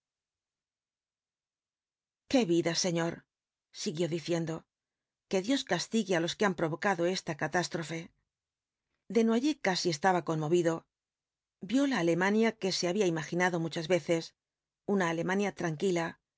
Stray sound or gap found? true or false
false